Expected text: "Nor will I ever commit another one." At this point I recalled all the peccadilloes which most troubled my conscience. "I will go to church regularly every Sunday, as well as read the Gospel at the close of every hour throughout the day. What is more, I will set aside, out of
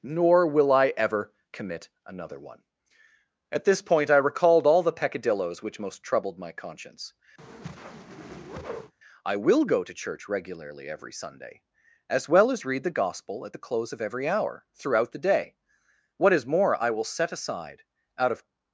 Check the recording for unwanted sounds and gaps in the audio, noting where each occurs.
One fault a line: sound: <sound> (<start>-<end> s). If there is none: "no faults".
sound: whoosh (7.4-8.9 s)